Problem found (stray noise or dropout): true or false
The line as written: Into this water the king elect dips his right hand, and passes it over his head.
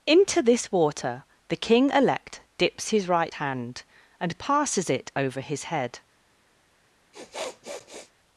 true